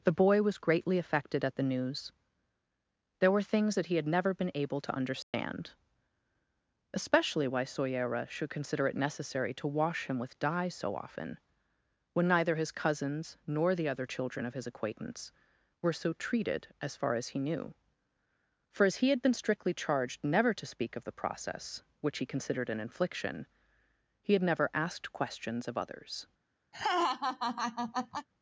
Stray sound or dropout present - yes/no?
yes